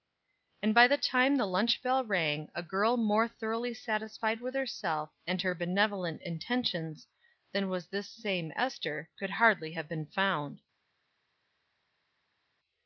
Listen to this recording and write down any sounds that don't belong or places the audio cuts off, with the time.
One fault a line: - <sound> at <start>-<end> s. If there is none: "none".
none